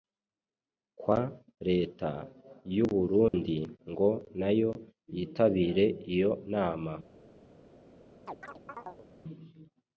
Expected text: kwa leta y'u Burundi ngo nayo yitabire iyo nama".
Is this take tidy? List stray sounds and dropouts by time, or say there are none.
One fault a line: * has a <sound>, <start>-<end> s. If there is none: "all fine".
* has a dropout, 3.3-3.3 s
* has a chirp, 8.3-9.1 s